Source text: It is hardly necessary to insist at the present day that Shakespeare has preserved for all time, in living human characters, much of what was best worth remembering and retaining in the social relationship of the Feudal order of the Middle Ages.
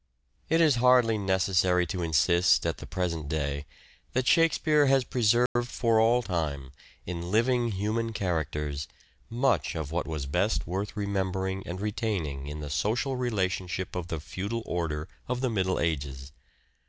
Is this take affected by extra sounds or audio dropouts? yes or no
yes